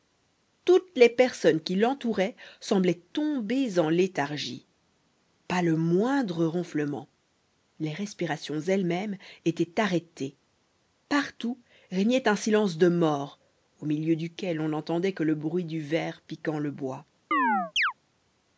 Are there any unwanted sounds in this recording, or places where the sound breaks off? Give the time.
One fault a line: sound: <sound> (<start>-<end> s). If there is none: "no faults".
sound: chirp (17.3-17.9 s)